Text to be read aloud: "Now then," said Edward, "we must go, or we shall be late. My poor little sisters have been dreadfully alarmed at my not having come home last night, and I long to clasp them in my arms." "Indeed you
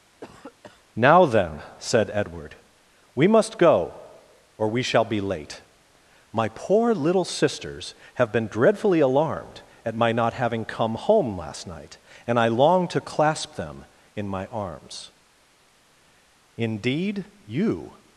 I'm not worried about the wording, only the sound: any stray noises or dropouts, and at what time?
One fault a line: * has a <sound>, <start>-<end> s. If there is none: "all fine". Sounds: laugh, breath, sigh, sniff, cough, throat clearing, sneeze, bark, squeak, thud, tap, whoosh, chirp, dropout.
* has a cough, 0.2-0.8 s